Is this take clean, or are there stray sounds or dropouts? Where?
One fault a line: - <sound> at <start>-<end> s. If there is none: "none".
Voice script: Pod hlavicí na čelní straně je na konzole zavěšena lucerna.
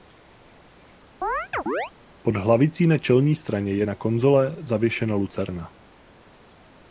- chirp at 1.2-1.9 s